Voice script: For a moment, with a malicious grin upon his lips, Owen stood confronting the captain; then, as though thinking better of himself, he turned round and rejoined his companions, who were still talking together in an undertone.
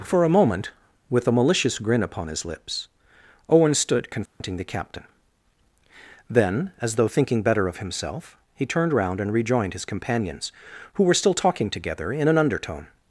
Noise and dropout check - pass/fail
fail